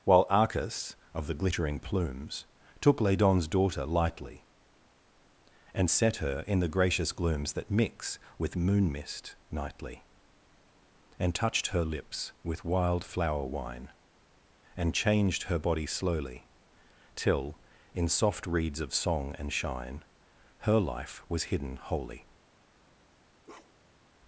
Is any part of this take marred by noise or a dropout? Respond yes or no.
yes